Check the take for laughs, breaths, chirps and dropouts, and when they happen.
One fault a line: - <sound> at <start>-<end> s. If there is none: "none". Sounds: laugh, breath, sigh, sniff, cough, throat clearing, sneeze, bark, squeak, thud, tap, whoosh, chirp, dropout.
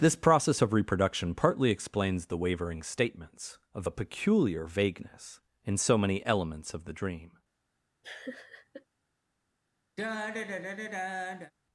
- laugh at 8.0-8.9 s
- sigh at 10.0-11.5 s